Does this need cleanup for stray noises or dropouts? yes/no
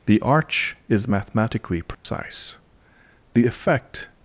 yes